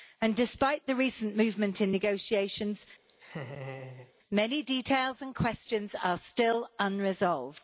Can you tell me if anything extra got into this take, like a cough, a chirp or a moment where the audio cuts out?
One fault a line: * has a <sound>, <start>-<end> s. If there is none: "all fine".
* has a laugh, 3.1-4.1 s